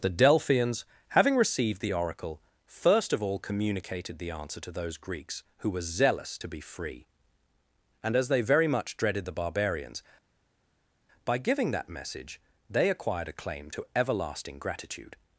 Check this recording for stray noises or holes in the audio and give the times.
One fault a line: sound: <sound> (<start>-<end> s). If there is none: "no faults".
no faults